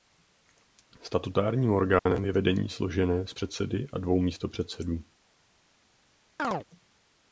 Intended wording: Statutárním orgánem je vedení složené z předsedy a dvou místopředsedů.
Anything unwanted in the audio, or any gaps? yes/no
yes